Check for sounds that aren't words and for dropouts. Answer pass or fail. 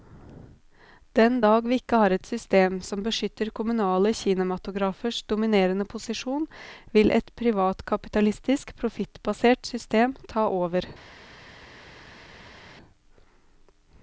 pass